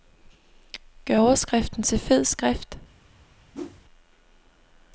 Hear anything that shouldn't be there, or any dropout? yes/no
yes